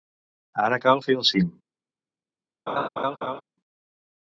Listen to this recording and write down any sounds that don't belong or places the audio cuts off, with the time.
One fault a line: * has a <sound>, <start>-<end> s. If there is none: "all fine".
* has a laugh, 2.7-3.4 s